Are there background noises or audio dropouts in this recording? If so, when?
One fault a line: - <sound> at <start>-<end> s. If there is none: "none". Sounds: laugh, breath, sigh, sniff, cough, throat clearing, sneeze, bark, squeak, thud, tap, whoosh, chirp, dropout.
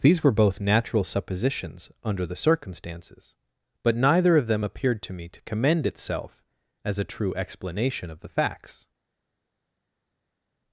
none